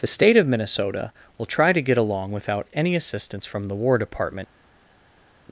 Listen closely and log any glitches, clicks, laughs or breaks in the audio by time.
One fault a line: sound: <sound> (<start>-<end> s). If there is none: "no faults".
no faults